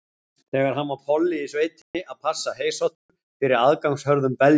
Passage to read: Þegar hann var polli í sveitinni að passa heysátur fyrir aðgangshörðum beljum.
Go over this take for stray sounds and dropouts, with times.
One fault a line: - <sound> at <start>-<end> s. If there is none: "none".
- dropout at 1.8-1.9 s
- dropout at 2.9-3.1 s